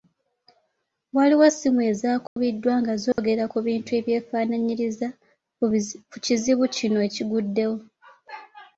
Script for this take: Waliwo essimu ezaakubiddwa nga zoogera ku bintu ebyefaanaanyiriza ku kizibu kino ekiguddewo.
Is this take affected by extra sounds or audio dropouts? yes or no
yes